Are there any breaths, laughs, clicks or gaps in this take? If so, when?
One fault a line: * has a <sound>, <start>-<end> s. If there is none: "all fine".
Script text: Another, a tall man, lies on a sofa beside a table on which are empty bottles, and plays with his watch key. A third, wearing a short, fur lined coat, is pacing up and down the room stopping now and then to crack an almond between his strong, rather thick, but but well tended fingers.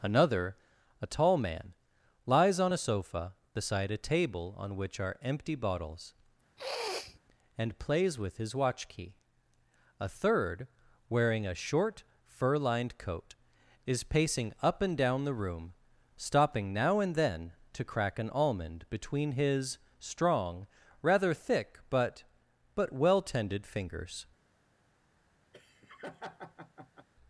* has a sniff, 6.6-7.2 s
* has a laugh, 25.5-27.1 s